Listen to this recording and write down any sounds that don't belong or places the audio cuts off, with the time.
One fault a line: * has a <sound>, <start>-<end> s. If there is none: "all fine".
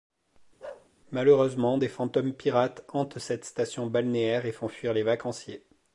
* has a bark, 0.6-0.9 s